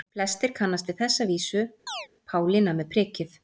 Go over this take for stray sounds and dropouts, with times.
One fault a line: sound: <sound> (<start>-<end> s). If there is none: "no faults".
sound: chirp (1.9-2.1 s)